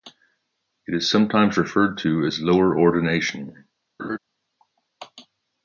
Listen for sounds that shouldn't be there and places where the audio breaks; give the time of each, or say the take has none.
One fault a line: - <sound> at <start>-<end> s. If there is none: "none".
- laugh at 4.0-4.2 s